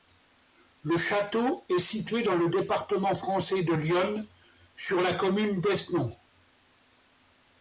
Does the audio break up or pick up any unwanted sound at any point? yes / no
no